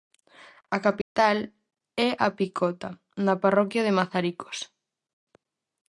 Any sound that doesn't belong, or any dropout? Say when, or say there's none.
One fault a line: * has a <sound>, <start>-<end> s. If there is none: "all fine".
* has a dropout, 1.0-1.2 s